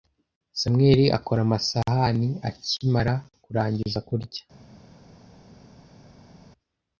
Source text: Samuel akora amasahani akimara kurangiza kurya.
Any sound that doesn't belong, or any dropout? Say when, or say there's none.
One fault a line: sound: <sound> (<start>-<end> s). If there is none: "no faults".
no faults